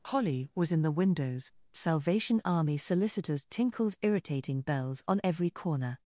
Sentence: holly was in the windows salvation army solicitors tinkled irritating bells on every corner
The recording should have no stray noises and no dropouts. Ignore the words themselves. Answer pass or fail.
pass